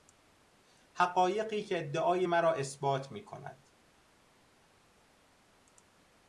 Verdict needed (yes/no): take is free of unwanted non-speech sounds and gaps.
yes